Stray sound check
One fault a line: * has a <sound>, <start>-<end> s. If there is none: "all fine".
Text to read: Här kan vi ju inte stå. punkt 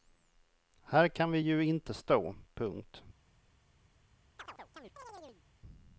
* has a chirp, 4.4-5.4 s